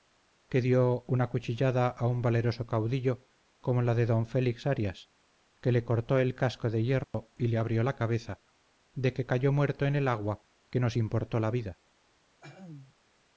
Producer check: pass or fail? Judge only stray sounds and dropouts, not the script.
fail